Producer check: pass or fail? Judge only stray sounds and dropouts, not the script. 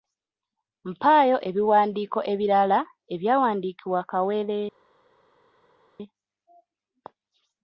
pass